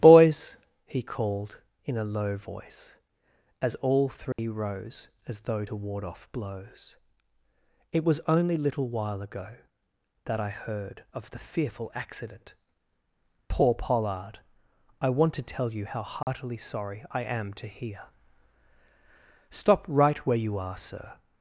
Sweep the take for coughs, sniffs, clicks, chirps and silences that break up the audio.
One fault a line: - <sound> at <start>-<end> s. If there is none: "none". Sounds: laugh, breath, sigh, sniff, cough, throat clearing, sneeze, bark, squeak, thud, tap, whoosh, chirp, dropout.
- dropout at 4.3-4.4 s
- dropout at 16.2-16.3 s